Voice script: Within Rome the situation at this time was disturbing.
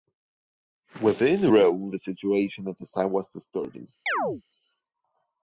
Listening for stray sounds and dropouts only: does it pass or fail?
fail